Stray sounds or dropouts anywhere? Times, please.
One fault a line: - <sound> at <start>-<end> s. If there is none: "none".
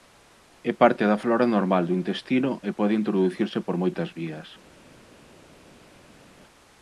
none